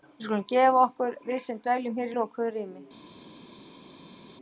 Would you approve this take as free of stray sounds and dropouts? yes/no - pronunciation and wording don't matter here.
yes